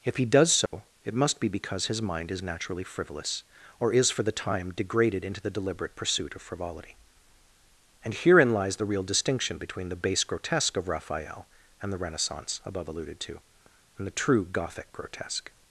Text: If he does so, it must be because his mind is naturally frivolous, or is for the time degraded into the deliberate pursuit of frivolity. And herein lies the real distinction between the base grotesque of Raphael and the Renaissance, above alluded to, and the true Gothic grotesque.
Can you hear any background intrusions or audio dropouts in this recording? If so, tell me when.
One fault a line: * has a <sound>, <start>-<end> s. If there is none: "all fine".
* has a dropout, 0.7-0.7 s